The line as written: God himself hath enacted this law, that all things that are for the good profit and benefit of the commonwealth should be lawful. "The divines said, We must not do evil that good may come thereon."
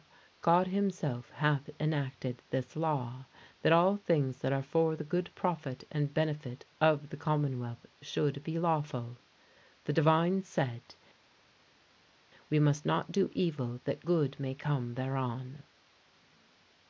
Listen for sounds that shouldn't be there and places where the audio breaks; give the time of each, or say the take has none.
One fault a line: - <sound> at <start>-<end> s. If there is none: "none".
none